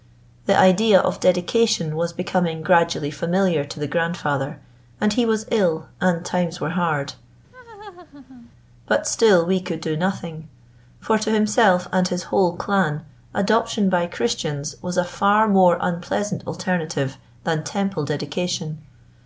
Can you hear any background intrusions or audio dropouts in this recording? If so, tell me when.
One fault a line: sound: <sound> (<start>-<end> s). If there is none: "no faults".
sound: laugh (7.5-8.5 s)